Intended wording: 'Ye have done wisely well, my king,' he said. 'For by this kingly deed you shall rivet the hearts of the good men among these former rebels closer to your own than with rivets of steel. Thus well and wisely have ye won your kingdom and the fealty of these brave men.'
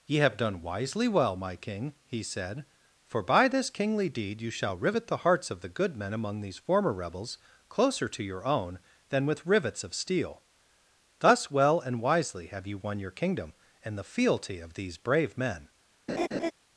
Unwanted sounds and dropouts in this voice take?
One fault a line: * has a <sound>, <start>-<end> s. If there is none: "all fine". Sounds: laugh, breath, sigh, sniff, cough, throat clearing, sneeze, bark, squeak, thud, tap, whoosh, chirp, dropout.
* has a laugh, 16.1-16.5 s